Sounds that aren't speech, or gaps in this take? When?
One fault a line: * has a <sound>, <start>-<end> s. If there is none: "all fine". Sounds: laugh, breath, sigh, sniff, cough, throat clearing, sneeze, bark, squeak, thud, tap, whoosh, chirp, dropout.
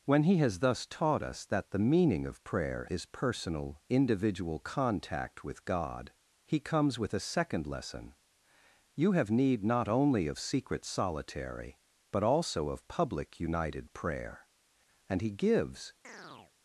* has a chirp, 16.0-16.5 s